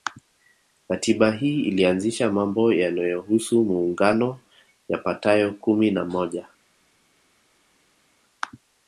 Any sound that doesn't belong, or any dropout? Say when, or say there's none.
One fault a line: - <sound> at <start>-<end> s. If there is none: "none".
none